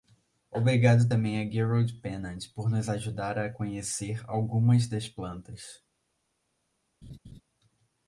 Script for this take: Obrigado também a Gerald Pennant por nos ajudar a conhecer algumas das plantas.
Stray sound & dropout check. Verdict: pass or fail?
fail